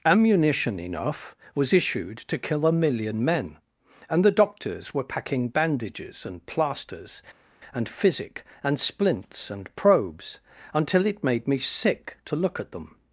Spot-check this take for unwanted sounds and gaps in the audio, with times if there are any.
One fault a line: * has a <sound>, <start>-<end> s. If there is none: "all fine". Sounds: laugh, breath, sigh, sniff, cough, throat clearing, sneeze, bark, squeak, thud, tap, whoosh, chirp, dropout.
all fine